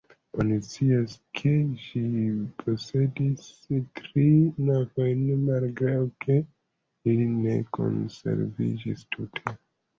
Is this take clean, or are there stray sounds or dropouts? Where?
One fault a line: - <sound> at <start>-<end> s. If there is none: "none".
none